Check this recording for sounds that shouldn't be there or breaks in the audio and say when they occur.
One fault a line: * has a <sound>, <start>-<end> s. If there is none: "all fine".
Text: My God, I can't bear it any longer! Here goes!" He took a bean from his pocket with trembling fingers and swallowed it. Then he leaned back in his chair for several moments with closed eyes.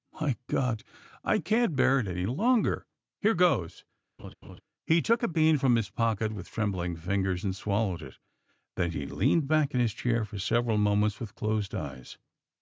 * has a laugh, 4.2-4.6 s